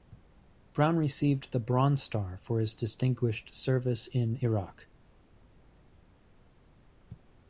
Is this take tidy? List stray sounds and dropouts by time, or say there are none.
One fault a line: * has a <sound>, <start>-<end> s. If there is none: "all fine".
all fine